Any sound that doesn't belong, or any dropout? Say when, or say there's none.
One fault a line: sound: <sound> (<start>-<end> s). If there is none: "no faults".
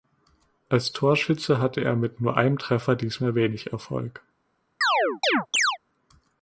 sound: chirp (4.8-5.8 s)